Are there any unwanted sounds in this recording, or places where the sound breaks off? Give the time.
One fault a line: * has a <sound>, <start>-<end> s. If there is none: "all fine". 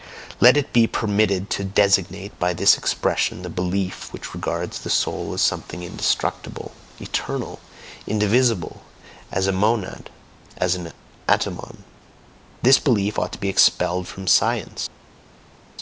all fine